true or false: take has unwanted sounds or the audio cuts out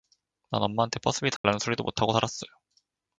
true